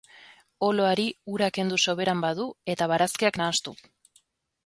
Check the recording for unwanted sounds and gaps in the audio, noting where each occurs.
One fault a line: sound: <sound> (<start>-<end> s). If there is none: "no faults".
no faults